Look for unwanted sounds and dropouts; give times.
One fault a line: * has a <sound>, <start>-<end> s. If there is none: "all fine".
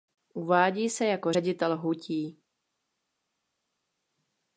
all fine